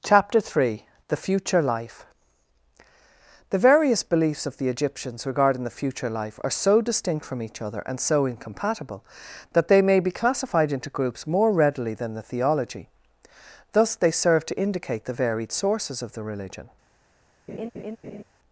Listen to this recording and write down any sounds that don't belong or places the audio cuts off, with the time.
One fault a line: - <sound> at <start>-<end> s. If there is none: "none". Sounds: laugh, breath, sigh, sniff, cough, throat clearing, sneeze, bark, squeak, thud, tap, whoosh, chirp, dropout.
- laugh at 17.5-18.2 s